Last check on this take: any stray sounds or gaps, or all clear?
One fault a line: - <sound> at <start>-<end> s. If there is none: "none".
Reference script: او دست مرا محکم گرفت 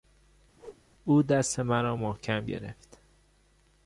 - whoosh at 0.6-0.8 s